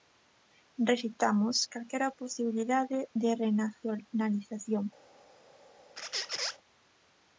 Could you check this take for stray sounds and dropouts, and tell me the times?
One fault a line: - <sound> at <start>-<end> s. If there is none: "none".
- squeak at 6.0-6.6 s